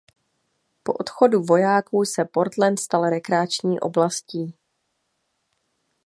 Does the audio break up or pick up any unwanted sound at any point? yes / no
no